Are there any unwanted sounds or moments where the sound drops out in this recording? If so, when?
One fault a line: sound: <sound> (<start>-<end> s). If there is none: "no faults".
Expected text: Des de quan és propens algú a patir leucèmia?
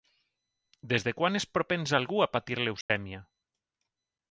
sound: dropout (2.8-2.9 s)